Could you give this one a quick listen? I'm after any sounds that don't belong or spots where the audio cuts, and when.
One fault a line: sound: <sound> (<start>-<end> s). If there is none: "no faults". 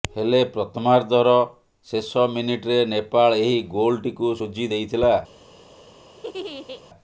sound: laugh (6.2-6.8 s)